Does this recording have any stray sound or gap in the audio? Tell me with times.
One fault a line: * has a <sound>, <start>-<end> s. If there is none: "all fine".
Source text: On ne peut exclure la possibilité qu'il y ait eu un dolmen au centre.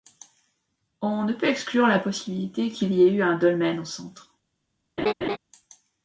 * has a laugh, 5.0-5.4 s